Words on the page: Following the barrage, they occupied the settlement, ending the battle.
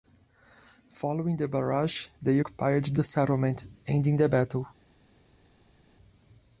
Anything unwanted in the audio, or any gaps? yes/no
no